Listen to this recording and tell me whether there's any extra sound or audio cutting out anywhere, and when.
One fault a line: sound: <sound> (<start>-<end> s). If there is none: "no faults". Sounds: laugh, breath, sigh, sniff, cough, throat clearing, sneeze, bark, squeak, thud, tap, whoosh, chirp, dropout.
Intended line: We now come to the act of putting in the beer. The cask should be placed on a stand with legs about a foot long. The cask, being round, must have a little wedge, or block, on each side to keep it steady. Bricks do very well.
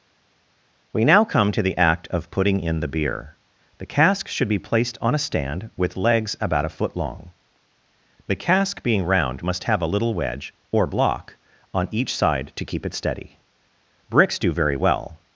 no faults